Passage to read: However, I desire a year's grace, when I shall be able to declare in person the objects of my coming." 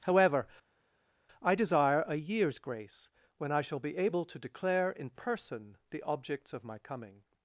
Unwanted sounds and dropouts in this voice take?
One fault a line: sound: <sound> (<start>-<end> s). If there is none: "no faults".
no faults